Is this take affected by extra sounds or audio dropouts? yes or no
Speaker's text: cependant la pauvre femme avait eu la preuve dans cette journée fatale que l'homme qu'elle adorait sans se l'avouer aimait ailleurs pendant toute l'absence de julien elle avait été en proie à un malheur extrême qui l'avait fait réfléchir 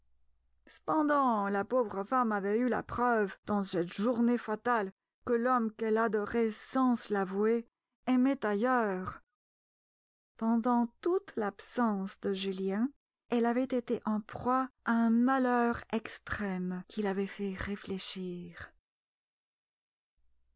no